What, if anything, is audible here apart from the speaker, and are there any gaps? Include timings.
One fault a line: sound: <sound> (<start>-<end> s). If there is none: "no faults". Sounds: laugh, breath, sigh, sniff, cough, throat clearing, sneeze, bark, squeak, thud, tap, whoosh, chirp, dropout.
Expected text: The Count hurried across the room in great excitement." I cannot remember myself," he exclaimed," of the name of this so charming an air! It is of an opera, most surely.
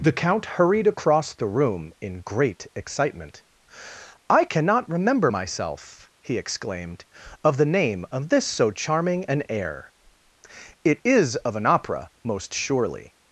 no faults